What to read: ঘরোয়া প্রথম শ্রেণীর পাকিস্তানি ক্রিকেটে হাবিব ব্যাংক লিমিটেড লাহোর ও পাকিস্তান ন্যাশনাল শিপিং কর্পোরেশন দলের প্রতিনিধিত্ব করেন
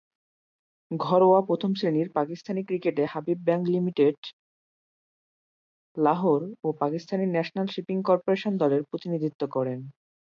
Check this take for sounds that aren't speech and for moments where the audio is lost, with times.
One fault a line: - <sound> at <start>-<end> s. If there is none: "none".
none